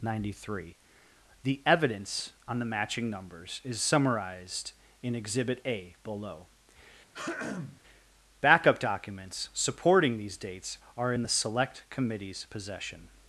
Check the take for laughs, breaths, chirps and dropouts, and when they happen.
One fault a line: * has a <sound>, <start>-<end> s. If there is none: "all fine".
* has a throat clearing, 7.1-7.8 s